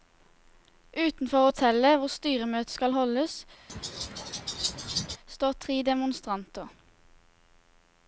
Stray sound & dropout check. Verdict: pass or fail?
fail